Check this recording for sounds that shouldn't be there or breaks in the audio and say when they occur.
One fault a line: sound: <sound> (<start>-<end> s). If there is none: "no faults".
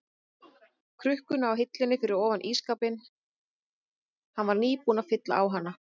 no faults